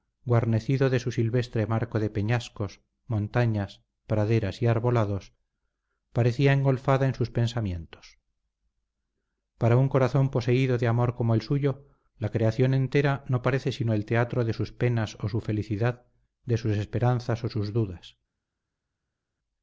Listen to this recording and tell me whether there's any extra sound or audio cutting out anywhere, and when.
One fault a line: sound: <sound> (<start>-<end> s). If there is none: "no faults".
no faults